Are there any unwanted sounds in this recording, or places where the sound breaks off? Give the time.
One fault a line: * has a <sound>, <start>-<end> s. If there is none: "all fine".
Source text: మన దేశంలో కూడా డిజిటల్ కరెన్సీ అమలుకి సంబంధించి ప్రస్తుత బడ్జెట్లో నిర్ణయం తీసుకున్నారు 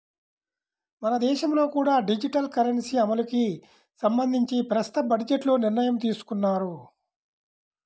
all fine